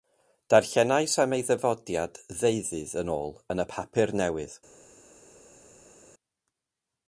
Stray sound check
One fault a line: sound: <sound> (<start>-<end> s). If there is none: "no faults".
no faults